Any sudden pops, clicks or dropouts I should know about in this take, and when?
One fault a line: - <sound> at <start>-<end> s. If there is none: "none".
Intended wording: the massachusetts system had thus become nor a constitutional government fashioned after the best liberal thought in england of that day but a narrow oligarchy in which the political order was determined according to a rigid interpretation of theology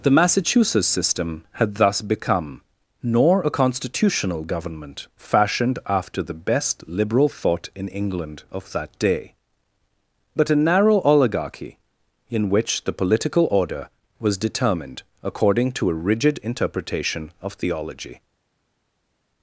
none